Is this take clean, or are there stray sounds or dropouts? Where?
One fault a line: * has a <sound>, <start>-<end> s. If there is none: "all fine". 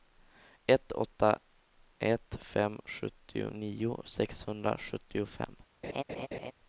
* has a laugh, 5.8-6.5 s